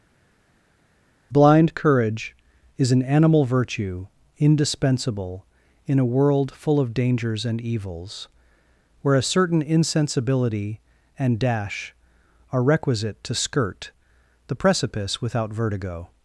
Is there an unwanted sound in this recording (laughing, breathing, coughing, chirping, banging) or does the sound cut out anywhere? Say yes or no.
no